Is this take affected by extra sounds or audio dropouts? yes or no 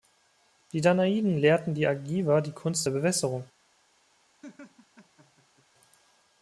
yes